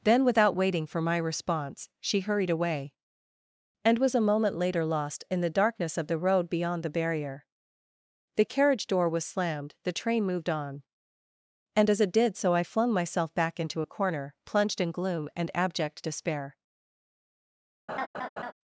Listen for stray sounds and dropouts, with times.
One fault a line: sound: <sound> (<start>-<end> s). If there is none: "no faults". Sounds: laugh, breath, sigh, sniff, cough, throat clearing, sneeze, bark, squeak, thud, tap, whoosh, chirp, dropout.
sound: laugh (17.9-18.5 s)